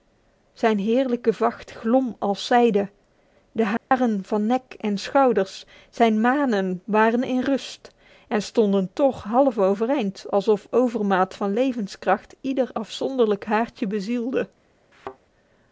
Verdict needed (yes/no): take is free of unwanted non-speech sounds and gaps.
no